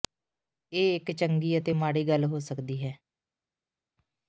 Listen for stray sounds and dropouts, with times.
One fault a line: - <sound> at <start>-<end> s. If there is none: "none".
none